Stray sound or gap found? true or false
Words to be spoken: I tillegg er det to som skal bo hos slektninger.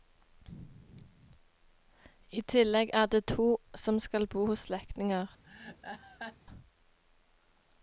true